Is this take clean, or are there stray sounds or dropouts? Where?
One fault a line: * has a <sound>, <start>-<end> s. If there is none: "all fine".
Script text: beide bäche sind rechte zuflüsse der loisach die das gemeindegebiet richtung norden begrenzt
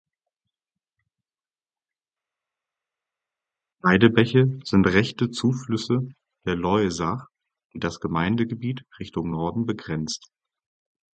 all fine